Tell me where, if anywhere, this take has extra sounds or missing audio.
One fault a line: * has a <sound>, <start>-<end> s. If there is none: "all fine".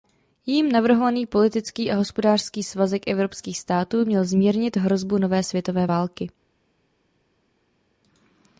all fine